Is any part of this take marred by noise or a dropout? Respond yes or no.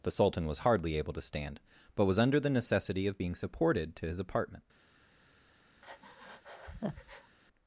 yes